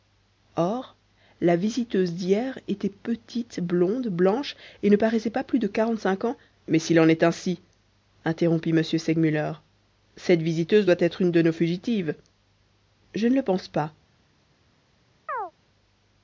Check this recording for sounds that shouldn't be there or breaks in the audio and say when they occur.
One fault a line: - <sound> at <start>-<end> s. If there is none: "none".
- chirp at 15.3-15.5 s